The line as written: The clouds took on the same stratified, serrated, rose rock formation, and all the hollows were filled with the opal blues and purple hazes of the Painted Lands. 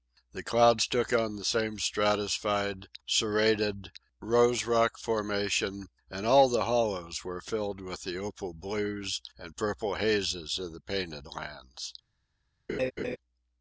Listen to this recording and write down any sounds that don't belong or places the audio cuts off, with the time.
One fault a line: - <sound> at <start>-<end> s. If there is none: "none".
- laugh at 12.7-13.2 s